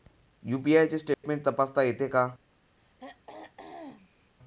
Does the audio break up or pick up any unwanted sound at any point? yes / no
yes